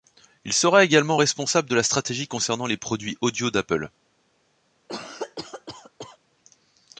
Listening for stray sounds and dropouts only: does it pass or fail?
fail